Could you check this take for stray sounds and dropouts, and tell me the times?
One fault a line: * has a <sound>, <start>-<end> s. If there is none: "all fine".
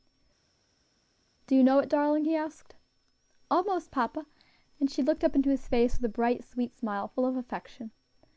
all fine